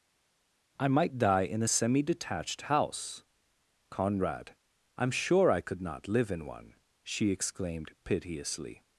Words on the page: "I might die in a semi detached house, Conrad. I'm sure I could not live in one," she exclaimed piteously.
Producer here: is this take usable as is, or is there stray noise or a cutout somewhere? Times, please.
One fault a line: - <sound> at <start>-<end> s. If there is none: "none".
none